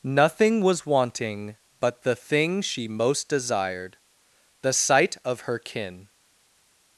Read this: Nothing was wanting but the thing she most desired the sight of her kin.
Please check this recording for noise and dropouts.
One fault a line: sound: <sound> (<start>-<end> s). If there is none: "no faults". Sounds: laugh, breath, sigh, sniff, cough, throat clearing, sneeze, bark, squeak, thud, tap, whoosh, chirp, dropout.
no faults